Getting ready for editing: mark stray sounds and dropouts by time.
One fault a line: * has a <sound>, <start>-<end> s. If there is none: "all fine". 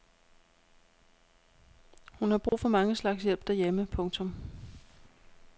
* has a dropout, 2.5-2.5 s